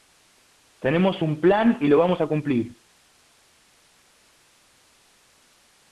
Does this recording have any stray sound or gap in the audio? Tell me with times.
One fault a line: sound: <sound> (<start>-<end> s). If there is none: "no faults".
no faults